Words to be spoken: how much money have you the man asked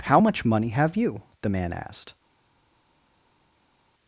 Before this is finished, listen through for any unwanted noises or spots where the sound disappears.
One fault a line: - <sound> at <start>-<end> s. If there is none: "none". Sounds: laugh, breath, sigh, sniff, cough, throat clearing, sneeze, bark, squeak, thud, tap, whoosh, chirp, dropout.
none